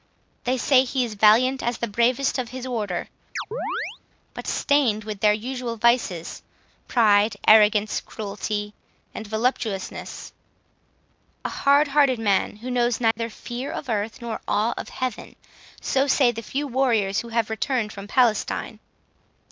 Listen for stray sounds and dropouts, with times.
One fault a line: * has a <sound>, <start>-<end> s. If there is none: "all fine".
* has a chirp, 3.4-4.0 s
* has a dropout, 13.1-13.2 s